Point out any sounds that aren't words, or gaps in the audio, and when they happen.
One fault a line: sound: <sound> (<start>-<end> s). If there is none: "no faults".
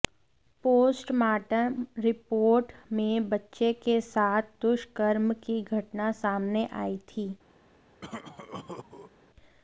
sound: cough (8.0-9.1 s)